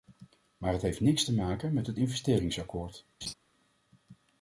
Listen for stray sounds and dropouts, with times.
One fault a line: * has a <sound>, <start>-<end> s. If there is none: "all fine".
* has a laugh, 3.2-3.3 s